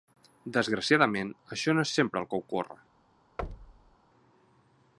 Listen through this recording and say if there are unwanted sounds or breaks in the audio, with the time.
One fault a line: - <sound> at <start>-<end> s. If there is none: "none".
- thud at 3.4-4.0 s